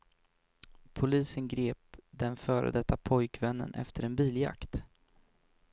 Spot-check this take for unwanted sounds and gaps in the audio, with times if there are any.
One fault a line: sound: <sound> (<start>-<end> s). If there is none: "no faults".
no faults